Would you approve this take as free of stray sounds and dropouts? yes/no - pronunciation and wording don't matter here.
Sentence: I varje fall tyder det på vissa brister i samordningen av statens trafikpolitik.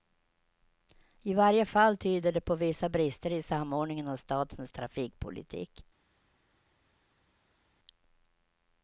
yes